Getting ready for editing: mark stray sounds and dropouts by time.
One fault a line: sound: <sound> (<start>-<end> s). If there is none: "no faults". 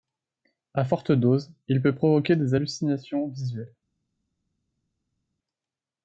no faults